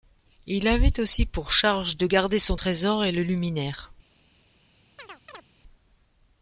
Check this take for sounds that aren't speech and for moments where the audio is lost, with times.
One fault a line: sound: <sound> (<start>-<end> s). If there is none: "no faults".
sound: chirp (5.0-5.5 s)